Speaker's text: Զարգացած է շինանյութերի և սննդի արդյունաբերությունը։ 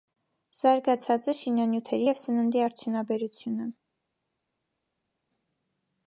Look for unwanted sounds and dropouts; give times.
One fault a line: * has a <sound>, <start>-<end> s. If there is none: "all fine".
all fine